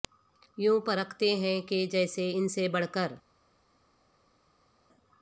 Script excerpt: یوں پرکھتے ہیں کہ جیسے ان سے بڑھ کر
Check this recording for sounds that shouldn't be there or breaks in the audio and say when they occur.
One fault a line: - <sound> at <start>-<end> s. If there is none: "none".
none